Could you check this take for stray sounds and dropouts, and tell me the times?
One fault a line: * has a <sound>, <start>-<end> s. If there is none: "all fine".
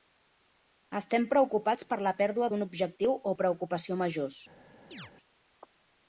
* has a chirp, 4.9-5.1 s